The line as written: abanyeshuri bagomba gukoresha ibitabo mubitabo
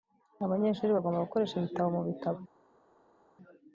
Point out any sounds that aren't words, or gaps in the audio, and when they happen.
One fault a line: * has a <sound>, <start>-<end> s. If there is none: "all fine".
all fine